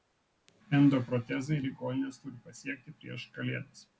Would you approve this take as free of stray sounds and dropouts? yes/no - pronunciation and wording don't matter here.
yes